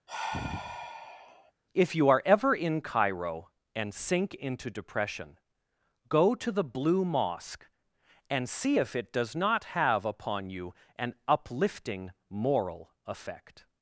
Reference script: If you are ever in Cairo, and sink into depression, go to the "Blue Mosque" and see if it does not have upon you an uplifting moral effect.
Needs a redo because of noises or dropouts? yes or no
yes